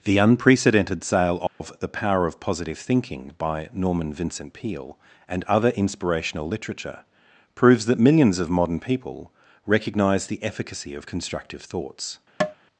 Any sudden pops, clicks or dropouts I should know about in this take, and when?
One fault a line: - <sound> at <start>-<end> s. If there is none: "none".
- dropout at 1.5-1.6 s
- tap at 12.4-12.6 s